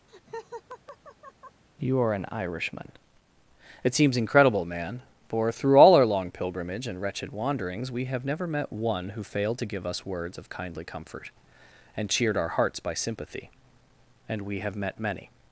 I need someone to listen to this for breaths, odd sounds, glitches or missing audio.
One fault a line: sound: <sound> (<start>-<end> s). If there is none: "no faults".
sound: laugh (0.1-1.6 s)